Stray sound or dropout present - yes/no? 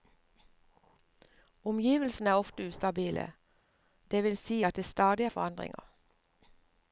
no